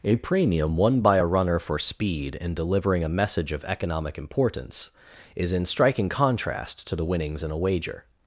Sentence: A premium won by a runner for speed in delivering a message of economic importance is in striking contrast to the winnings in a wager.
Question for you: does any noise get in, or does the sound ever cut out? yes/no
no